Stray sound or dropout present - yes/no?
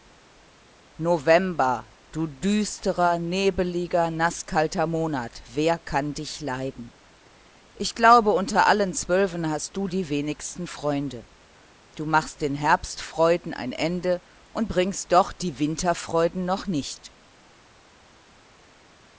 no